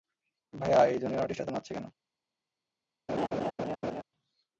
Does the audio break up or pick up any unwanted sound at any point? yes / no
yes